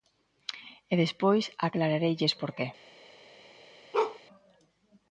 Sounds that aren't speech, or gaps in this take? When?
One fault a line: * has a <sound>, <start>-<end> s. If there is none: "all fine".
* has a bark, 3.9-4.2 s